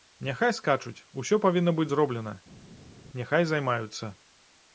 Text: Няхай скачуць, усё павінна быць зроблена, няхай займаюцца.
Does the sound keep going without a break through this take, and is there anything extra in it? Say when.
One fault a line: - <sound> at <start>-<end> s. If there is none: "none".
none